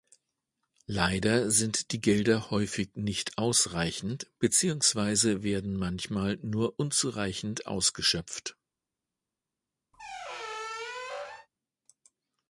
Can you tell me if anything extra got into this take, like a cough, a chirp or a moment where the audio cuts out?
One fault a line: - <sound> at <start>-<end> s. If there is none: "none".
- squeak at 9.9-11.5 s